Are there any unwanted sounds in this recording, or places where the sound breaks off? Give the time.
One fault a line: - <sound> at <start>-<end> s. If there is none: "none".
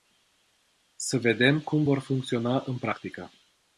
none